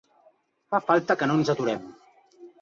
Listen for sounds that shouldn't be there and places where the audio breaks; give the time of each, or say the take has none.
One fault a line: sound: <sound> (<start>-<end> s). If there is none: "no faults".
no faults